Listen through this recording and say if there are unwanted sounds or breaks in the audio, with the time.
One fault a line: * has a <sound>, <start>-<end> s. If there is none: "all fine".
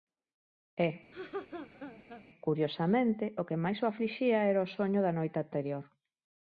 * has a laugh, 1.1-2.2 s